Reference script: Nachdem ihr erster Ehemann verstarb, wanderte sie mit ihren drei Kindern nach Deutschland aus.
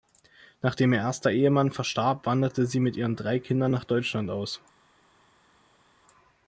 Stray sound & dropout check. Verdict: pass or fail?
pass